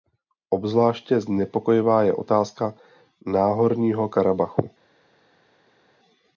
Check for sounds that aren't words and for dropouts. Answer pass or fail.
pass